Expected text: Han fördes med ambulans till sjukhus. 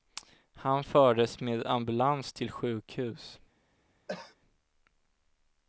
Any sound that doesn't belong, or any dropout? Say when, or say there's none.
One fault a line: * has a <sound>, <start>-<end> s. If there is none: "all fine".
* has a cough, 4.1-4.4 s